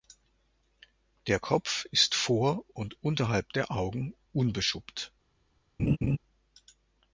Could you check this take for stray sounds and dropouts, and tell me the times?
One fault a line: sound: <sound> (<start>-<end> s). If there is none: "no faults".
sound: laugh (5.8-6.2 s)